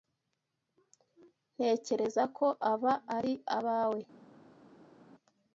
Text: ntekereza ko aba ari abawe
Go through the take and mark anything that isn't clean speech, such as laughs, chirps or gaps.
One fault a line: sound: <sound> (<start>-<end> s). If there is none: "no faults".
no faults